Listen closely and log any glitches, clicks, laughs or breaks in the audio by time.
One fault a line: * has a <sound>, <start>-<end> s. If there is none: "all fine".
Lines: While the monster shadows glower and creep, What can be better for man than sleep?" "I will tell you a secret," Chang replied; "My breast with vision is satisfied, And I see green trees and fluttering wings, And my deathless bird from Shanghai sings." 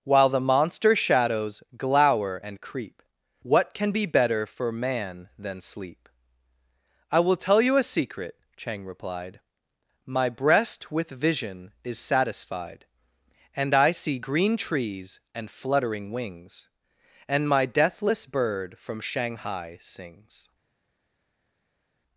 all fine